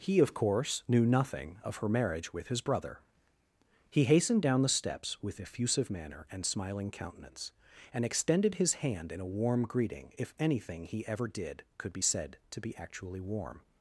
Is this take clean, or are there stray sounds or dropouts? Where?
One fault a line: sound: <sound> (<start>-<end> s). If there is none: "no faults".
no faults